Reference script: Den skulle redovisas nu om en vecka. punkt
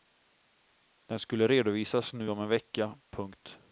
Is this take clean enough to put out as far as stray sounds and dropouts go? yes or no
yes